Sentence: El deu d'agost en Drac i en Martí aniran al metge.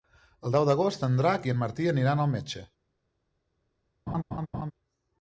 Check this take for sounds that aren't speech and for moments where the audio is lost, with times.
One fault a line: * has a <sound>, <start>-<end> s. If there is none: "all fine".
* has a laugh, 4.1-4.7 s